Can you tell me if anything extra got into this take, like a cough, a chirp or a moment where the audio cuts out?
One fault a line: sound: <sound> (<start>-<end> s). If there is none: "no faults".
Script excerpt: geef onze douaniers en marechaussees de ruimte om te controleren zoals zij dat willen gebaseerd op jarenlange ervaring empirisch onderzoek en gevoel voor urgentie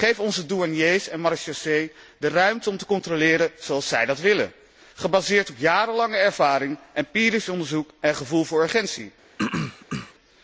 sound: throat clearing (9.4-10.1 s)